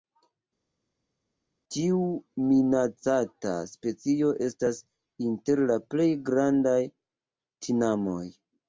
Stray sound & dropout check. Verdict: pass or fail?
pass